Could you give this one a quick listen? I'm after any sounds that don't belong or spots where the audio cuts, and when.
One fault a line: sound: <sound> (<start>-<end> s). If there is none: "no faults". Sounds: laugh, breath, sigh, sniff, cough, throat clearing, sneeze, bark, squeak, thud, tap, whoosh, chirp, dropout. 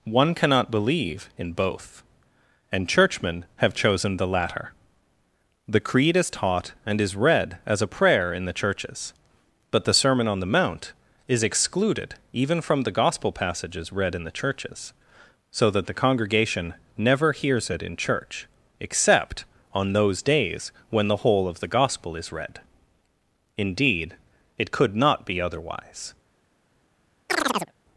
sound: chirp (27.3-27.7 s)